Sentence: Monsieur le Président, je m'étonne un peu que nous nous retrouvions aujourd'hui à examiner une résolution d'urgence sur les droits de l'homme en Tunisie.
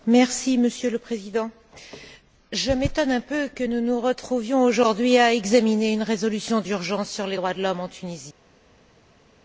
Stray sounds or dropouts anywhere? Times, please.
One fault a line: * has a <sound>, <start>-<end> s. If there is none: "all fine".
all fine